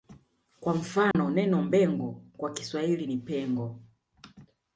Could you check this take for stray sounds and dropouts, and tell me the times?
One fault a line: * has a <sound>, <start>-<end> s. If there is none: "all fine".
* has a dropout, 1.1-1.1 s